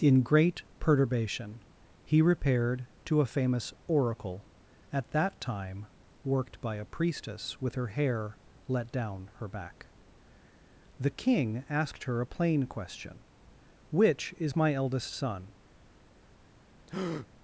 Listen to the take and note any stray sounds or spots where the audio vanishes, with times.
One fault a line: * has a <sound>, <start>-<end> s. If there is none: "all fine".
* has a breath, 16.9-17.3 s